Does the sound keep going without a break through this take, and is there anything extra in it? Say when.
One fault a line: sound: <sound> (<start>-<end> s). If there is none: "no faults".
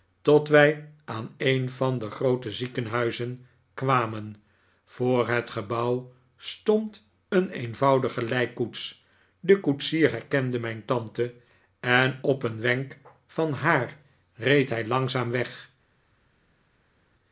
no faults